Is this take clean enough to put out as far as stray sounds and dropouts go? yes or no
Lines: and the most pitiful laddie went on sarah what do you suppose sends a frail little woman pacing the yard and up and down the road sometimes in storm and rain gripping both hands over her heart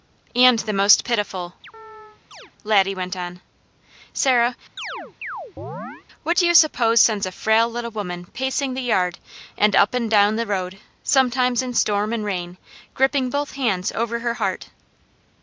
no